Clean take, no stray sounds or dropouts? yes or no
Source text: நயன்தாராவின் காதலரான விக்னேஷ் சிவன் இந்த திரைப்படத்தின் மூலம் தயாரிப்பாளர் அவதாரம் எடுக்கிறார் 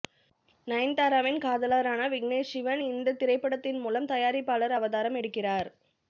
yes